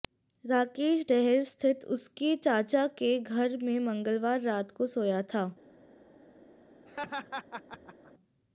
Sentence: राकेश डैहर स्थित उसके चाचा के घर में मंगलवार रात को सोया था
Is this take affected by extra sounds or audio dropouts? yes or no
yes